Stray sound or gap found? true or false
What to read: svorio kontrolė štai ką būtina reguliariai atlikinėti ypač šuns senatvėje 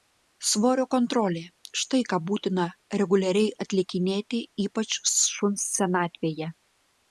false